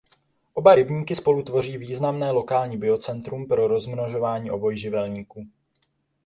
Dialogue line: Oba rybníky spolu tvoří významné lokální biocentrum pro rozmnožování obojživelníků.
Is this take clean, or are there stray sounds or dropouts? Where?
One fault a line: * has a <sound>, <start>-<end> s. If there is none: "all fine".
all fine